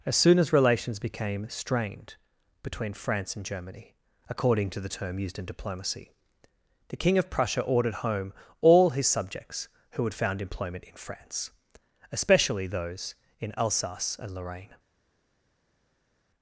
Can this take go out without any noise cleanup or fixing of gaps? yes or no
yes